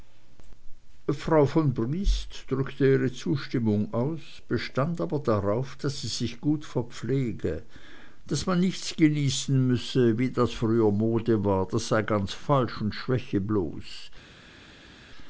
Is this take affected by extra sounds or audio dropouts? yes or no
no